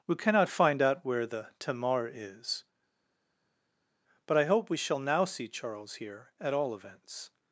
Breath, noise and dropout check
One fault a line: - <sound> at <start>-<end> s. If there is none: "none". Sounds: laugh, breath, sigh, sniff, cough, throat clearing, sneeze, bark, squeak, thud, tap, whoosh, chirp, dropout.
none